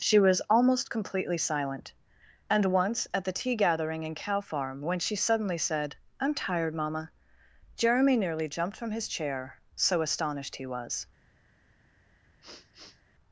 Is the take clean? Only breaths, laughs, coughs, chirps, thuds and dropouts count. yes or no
no